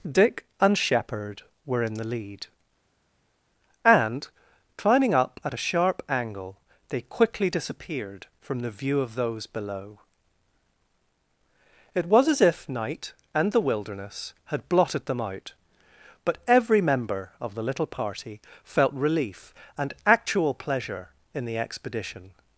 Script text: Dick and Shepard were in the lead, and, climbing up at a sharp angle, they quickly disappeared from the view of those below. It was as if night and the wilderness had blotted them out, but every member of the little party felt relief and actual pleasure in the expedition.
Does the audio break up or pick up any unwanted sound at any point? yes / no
no